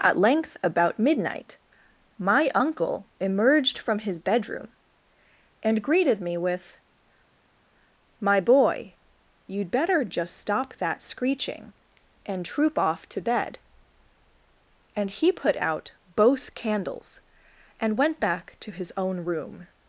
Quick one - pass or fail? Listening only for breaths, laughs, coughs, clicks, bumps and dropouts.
pass